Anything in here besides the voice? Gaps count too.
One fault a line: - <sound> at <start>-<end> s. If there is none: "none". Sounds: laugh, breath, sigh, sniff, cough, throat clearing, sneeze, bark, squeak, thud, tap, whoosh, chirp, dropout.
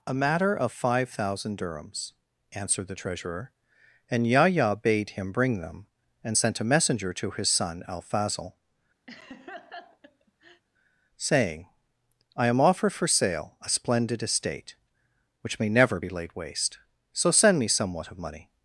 - laugh at 9.1-10.6 s